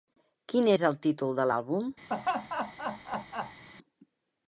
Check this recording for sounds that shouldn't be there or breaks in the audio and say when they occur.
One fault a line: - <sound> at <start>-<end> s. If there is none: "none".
- laugh at 2.1-3.6 s